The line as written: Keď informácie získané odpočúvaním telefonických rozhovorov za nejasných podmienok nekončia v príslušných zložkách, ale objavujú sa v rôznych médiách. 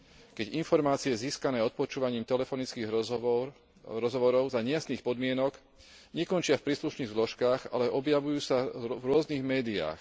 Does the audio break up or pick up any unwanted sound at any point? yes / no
no